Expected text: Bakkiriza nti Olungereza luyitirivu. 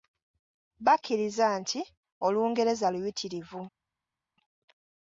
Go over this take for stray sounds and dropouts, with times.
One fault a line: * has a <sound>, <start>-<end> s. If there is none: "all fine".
all fine